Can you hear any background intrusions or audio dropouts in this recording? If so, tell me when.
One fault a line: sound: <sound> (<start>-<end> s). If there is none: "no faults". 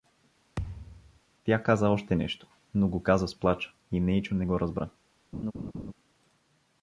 sound: thud (0.6-1.2 s)
sound: laugh (5.3-5.9 s)